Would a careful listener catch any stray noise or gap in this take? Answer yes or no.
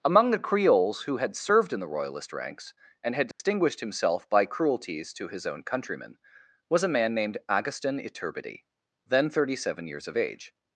yes